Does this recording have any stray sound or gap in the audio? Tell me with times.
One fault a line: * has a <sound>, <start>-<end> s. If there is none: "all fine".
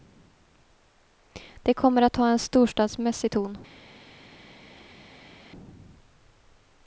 all fine